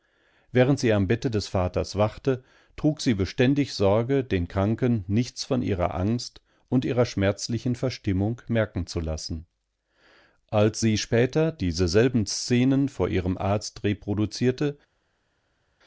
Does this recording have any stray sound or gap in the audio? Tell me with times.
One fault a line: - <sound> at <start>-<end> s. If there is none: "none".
none